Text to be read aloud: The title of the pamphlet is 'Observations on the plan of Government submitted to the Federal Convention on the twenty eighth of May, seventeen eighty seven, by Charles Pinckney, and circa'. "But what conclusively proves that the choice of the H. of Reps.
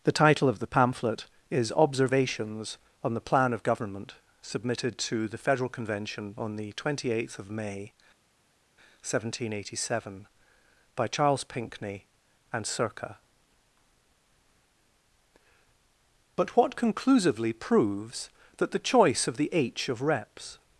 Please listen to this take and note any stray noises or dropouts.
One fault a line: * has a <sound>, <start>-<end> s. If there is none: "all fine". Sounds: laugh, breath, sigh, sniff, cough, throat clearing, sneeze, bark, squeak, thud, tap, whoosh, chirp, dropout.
all fine